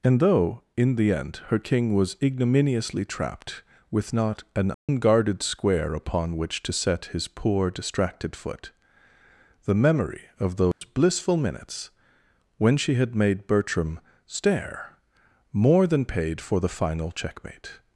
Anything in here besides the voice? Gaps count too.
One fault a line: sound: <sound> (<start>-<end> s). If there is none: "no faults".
sound: dropout (4.7-4.9 s)
sound: dropout (10.7-10.8 s)